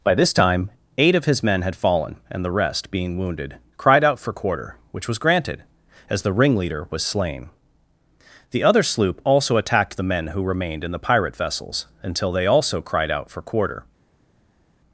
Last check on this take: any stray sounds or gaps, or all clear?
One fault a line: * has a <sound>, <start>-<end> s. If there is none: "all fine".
all fine